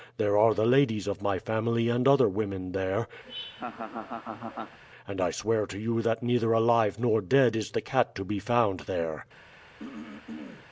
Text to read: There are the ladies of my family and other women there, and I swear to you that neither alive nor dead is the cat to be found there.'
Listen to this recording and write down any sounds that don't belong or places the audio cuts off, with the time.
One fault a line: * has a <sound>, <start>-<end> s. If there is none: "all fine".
* has a laugh, 3.2-4.8 s
* has a throat clearing, 9.8-10.7 s